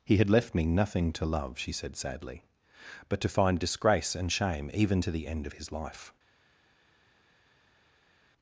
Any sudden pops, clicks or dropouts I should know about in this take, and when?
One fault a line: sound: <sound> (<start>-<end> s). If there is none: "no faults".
no faults